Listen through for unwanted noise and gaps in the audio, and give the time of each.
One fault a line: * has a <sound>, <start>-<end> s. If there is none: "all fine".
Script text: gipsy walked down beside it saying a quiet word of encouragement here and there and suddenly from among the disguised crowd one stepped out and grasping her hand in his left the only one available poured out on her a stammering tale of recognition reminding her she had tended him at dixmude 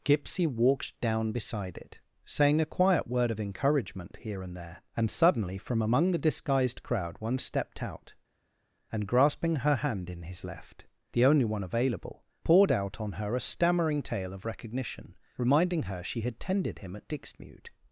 all fine